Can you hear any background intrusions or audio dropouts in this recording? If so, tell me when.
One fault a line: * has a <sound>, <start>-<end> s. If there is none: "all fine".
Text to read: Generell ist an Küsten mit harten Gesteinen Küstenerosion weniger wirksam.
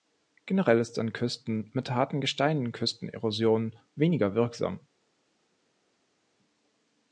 all fine